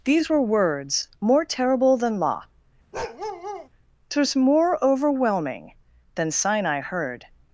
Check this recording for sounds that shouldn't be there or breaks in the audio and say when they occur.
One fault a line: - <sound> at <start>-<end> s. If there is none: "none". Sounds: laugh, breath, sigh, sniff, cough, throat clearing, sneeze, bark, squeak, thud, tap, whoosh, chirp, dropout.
- bark at 2.9-3.7 s